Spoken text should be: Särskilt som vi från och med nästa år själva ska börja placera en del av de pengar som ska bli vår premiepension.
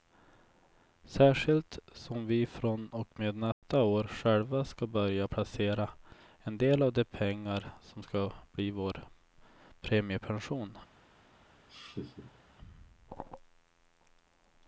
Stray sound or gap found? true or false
true